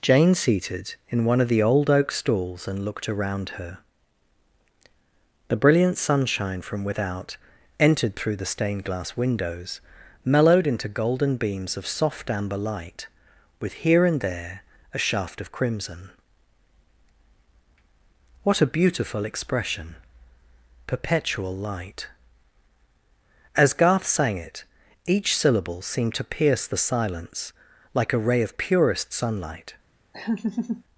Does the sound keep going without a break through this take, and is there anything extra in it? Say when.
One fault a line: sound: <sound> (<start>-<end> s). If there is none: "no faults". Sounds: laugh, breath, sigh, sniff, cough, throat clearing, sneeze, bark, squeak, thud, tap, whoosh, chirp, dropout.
sound: laugh (30.1-30.8 s)